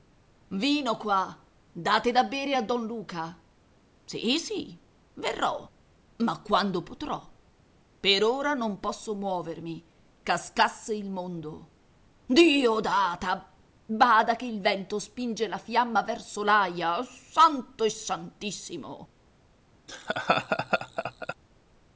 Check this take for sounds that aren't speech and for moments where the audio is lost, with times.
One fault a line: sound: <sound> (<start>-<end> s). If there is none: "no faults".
sound: laugh (19.9-21.3 s)